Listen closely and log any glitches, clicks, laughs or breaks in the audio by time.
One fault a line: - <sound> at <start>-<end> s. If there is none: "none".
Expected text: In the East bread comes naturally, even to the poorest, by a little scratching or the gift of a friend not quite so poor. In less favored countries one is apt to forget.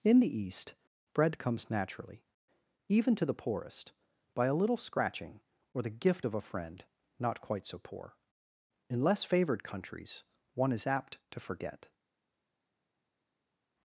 none